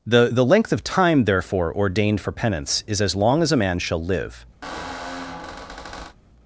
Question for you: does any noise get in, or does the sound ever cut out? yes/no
yes